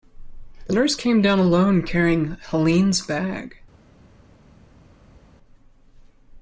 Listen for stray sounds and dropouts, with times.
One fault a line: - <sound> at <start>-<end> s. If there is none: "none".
none